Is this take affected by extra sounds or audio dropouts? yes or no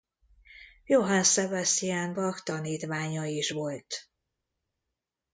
no